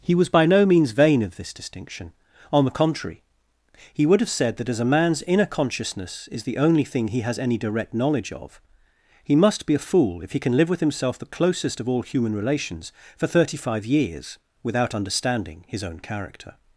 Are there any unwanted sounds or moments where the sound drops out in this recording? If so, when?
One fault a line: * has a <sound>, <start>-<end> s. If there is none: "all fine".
all fine